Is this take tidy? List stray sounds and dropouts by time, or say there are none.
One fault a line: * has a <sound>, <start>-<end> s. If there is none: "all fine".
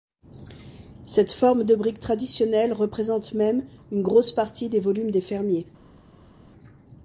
all fine